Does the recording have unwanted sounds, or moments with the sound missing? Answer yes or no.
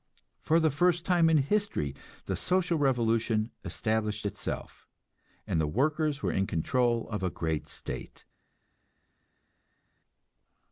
no